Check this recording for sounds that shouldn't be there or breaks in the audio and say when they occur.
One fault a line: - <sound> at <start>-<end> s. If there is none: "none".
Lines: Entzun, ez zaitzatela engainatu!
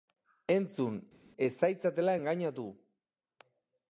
none